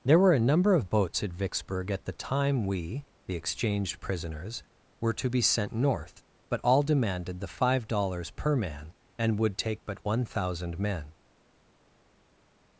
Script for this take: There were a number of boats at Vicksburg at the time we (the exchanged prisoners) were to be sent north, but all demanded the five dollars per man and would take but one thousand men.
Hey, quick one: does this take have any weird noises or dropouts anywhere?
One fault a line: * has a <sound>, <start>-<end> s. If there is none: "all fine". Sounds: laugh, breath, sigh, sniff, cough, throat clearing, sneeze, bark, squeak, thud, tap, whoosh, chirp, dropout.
all fine